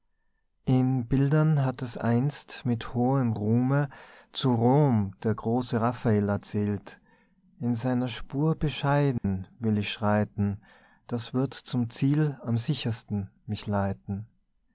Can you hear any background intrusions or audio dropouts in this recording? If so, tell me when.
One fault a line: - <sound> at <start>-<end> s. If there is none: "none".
- dropout at 9.2-9.2 s